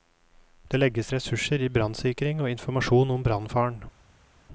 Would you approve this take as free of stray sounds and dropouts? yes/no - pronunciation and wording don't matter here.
yes